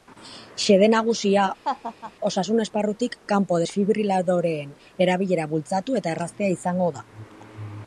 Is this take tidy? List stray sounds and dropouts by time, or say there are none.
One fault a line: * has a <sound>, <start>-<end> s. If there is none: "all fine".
* has a laugh, 1.6-2.1 s